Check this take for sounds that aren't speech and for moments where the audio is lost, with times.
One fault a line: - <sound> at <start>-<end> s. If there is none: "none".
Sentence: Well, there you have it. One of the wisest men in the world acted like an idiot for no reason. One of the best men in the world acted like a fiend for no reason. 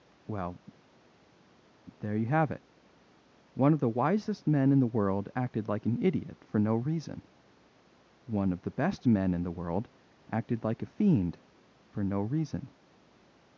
none